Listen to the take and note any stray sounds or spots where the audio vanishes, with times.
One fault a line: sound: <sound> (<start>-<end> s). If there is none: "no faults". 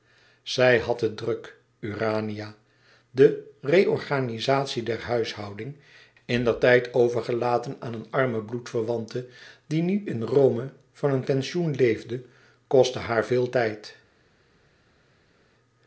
no faults